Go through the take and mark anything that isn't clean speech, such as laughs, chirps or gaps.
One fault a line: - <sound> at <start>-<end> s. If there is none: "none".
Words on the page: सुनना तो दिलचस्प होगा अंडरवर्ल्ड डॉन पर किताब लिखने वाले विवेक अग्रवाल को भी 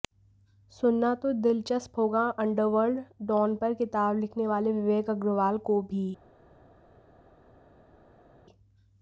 none